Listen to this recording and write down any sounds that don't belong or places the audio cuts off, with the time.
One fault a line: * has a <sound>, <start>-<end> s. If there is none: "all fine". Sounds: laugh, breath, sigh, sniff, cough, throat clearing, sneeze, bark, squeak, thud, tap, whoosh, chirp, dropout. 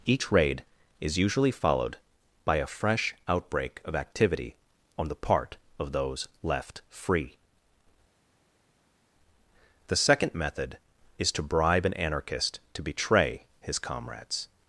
all fine